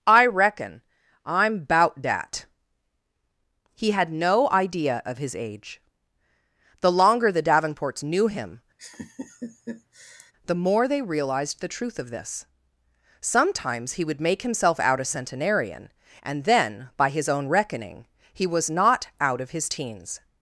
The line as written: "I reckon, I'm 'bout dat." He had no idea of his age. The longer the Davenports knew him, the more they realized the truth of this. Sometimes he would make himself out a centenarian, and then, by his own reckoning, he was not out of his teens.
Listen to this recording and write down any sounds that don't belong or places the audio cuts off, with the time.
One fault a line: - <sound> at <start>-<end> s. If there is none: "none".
- laugh at 8.8-10.3 s